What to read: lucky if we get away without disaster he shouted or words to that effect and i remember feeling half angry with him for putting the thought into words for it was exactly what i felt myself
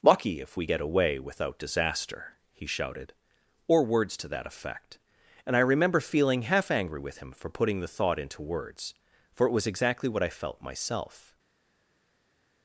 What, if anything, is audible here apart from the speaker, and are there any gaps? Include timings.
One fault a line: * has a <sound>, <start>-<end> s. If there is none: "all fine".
all fine